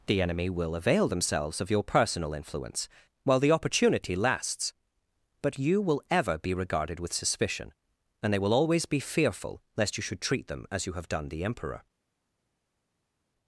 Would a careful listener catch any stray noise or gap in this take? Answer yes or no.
no